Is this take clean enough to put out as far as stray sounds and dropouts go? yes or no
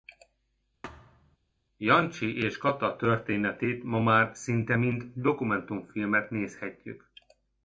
no